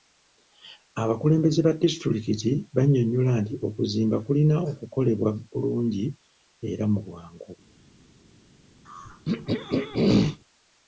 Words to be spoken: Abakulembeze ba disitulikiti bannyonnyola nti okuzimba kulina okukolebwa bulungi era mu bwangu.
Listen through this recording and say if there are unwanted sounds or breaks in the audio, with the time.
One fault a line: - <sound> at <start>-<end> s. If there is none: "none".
- throat clearing at 8.8-10.4 s